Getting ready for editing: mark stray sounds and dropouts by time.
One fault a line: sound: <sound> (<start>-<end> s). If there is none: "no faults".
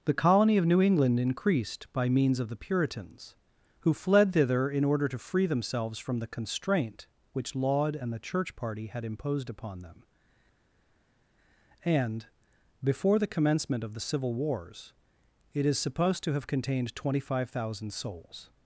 no faults